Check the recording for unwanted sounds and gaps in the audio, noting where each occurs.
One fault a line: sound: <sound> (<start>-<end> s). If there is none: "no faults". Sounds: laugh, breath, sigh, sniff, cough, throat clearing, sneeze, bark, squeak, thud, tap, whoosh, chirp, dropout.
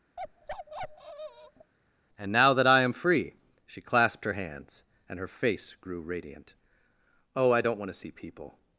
sound: bark (0.2-1.7 s)